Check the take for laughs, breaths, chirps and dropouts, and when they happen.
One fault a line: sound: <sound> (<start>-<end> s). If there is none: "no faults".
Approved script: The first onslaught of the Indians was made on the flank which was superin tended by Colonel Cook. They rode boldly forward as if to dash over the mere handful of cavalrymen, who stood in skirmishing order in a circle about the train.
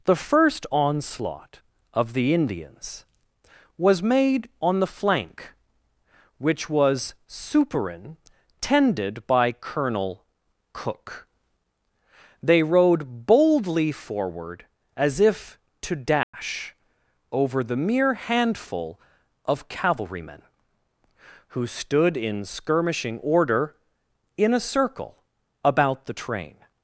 sound: dropout (16.2-16.3 s)